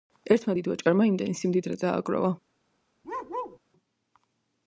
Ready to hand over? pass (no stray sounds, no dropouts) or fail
fail